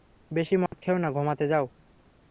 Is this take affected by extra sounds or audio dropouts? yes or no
yes